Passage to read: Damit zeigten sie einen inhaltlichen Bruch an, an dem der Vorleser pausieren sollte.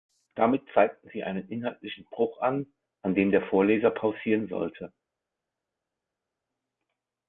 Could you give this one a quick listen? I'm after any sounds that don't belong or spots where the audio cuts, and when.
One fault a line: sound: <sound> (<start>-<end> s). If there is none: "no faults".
no faults